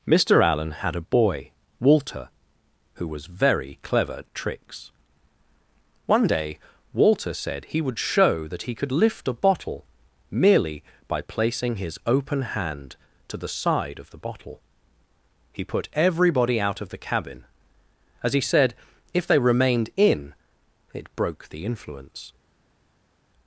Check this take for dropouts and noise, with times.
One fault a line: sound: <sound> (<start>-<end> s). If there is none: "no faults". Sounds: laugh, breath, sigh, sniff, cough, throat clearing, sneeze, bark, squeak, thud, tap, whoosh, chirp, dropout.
no faults